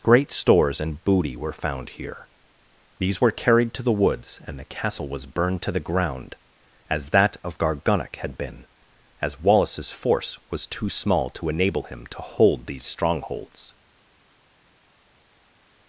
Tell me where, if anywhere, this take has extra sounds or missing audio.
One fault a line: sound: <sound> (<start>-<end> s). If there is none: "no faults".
no faults